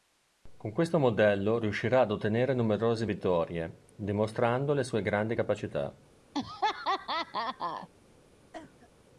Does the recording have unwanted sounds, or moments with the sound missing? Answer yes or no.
yes